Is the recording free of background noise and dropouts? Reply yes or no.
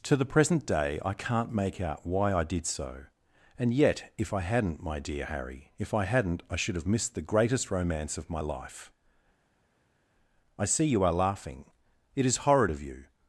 yes